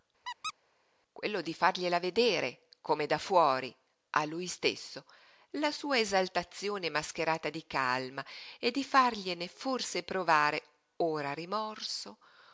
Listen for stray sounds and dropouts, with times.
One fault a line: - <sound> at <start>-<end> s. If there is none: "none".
- squeak at 0.2-0.5 s